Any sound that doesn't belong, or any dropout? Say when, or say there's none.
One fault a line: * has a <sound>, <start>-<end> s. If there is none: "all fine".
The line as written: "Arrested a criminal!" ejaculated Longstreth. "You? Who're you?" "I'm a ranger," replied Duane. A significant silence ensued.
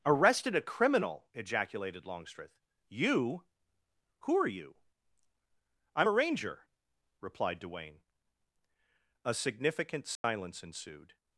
* has a dropout, 10.2-10.2 s